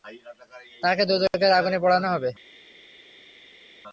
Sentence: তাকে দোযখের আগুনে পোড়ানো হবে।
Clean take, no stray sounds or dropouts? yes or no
yes